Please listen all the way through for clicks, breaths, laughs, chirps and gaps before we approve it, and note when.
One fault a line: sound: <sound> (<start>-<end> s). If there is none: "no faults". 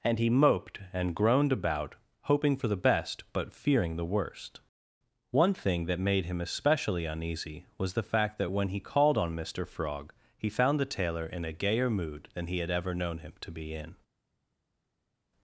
no faults